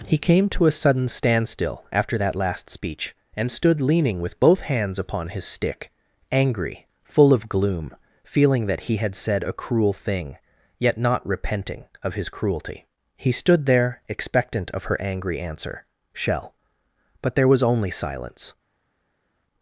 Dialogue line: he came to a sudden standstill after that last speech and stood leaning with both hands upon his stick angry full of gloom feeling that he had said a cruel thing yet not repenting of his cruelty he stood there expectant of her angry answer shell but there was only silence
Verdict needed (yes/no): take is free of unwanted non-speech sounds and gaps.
yes